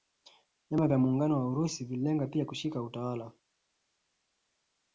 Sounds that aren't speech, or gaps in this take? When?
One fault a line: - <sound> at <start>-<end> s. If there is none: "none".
none